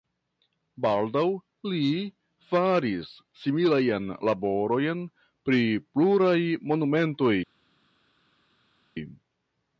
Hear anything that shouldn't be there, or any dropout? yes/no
no